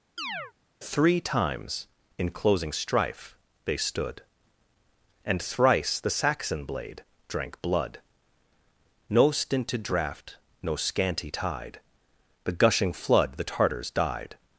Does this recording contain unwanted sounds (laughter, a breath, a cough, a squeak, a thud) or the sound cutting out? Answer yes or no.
yes